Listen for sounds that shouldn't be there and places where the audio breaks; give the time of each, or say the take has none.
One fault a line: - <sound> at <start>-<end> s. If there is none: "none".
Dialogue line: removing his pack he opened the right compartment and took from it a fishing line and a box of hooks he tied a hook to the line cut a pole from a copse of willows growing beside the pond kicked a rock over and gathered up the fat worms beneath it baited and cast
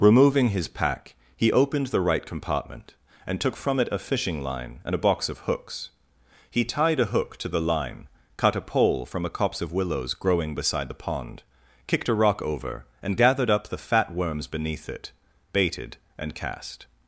none